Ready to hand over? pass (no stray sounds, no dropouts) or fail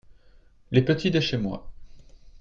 pass